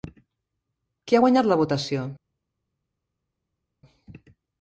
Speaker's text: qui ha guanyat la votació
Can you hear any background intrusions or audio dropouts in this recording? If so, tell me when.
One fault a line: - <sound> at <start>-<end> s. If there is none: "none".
none